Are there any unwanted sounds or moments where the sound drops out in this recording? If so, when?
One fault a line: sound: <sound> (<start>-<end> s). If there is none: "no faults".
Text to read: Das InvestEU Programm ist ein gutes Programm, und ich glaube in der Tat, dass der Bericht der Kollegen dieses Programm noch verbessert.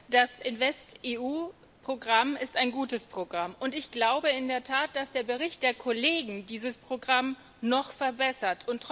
no faults